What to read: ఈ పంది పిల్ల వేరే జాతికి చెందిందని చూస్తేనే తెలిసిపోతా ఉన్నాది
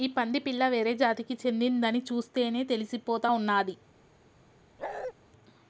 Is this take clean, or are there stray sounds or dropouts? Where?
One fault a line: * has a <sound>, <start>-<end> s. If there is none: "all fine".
* has a bark, 4.8-5.1 s